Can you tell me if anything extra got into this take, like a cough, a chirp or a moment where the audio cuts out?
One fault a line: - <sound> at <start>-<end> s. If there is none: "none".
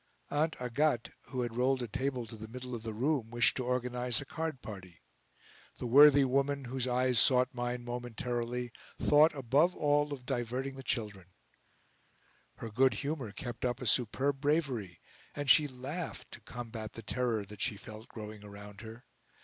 none